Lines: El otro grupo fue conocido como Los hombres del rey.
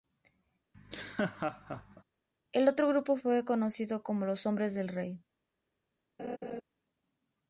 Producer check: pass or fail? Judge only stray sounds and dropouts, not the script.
fail